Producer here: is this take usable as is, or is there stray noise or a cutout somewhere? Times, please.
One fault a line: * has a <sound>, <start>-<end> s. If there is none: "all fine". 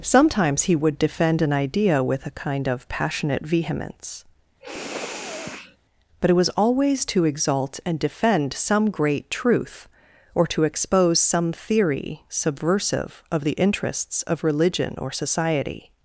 * has a sniff, 4.6-5.8 s